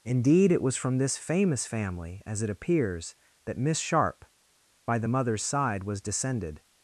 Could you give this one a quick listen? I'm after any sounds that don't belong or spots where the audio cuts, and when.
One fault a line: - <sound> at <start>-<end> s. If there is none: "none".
none